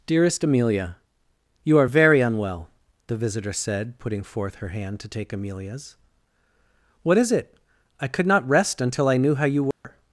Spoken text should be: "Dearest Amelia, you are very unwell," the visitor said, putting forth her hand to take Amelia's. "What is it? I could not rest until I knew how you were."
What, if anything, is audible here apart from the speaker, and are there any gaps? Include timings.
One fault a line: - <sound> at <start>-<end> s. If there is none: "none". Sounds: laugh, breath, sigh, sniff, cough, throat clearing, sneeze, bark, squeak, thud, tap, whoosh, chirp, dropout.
- dropout at 9.7-9.8 s